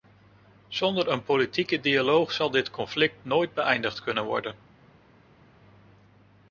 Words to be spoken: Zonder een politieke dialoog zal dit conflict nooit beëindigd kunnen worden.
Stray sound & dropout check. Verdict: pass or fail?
pass